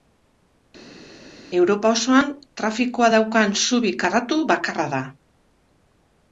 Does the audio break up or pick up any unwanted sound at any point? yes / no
no